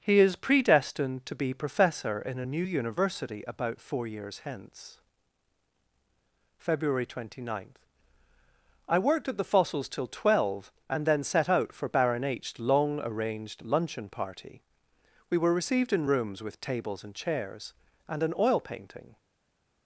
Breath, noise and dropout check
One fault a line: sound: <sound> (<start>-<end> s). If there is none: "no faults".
no faults